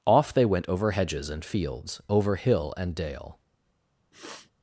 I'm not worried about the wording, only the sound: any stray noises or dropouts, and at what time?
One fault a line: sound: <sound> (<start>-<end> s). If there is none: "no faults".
sound: sniff (4.1-4.5 s)